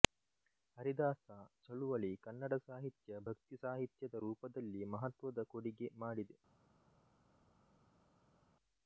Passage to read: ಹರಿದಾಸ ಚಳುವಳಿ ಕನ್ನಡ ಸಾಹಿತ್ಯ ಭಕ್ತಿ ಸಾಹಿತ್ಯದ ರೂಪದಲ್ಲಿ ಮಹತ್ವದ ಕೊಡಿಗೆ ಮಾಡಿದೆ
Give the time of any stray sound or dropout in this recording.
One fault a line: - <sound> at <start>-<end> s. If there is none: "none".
none